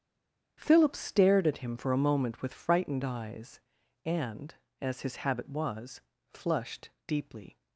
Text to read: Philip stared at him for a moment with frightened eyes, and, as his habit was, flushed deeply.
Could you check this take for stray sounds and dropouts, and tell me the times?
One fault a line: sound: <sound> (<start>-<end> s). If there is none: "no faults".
no faults